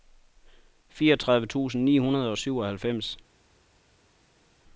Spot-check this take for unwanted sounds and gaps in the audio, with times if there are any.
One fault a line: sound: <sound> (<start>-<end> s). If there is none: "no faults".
no faults